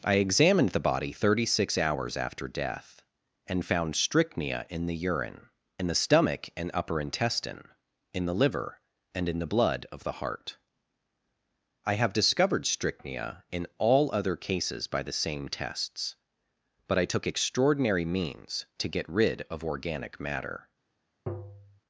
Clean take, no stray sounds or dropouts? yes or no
no